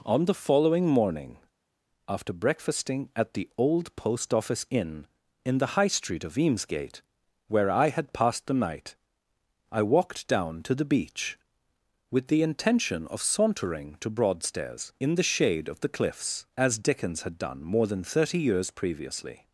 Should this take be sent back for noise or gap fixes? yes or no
no